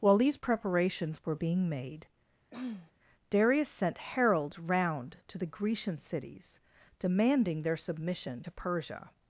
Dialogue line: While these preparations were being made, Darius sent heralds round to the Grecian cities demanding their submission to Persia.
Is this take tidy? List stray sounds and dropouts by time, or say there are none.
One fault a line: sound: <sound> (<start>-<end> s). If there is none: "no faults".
sound: throat clearing (2.5-2.9 s)